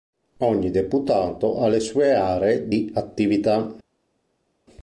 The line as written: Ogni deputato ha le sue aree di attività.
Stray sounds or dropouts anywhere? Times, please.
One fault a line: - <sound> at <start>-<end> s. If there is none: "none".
none